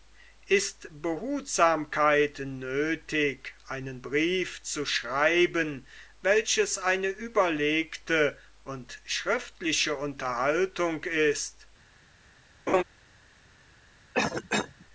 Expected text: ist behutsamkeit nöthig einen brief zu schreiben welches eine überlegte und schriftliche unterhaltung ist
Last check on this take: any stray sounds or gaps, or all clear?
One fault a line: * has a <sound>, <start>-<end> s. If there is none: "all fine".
* has a laugh, 12.7-12.8 s
* has a cough, 14.1-14.9 s